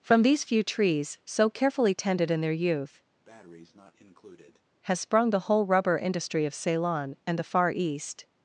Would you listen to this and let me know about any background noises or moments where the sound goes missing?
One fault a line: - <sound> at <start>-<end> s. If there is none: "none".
- breath at 3.2-4.6 s